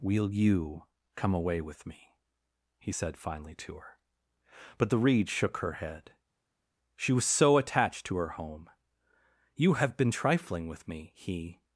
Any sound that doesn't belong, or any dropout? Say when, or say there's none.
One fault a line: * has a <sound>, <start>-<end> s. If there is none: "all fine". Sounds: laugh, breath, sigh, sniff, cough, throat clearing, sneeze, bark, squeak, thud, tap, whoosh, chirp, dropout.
all fine